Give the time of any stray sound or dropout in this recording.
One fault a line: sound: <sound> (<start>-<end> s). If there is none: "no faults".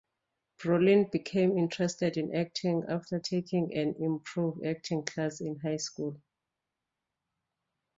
no faults